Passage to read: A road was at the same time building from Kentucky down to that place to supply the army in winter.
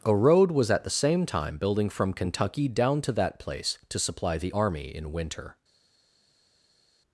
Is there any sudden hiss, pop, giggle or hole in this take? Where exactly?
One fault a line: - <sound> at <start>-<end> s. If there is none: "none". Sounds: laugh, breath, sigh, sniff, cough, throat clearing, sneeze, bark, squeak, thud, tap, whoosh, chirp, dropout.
none